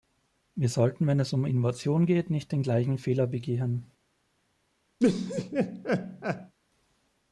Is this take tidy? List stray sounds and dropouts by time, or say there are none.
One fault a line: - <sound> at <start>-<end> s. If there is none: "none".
- laugh at 5.0-6.5 s